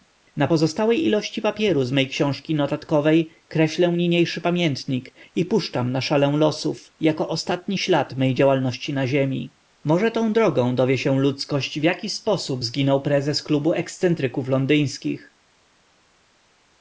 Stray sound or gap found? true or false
false